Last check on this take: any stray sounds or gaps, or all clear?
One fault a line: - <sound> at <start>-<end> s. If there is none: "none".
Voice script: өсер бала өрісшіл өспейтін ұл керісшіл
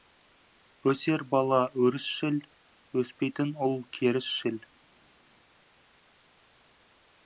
none